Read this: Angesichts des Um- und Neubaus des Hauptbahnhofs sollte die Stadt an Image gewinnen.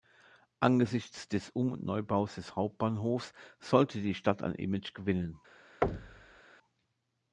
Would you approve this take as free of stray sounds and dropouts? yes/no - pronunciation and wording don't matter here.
no